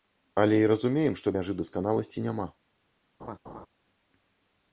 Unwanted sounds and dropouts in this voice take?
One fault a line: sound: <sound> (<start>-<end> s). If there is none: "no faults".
sound: laugh (3.2-3.7 s)